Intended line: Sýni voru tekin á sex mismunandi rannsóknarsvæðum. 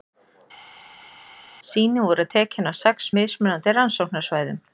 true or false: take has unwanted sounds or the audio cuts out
false